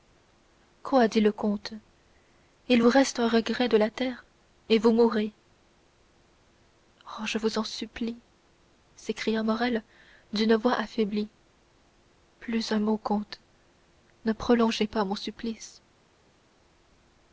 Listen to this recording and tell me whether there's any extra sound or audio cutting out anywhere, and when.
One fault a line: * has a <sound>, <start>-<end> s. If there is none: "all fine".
all fine